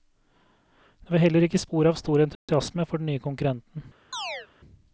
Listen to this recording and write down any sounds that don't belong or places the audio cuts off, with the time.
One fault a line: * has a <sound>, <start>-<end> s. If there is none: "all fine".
* has a dropout, 2.4-2.5 s
* has a chirp, 4.1-4.5 s